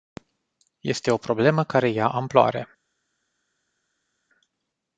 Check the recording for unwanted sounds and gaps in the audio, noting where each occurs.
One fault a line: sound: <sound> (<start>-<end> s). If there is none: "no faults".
no faults